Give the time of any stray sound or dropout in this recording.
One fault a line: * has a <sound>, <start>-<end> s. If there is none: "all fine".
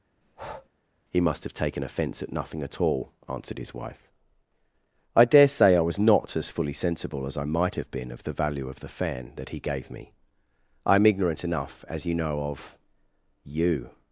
* has a breath, 0.2-0.7 s